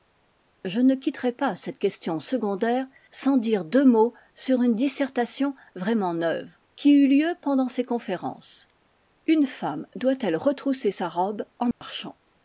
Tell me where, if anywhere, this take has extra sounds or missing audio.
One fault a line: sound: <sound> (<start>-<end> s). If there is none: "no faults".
sound: dropout (11.7-11.8 s)